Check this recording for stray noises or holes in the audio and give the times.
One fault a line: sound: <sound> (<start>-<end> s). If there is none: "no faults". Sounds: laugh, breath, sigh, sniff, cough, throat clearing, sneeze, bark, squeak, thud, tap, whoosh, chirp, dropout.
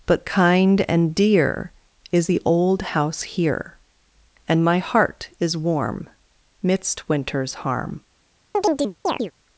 sound: chirp (8.5-9.3 s)